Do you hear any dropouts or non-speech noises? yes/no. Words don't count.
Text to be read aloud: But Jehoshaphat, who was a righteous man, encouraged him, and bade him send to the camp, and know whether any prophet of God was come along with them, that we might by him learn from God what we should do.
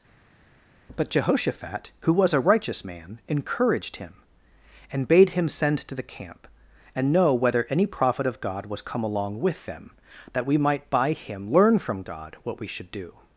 no